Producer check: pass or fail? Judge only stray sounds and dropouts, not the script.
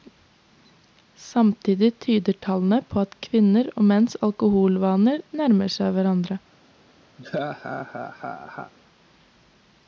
fail